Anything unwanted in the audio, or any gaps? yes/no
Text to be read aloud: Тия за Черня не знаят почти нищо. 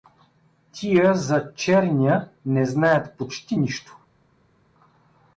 no